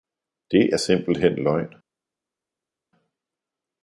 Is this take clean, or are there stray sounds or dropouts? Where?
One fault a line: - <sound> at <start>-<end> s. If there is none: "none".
none